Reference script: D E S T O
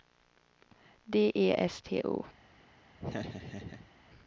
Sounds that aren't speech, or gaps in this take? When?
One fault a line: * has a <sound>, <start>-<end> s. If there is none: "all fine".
* has a laugh, 3.0-3.9 s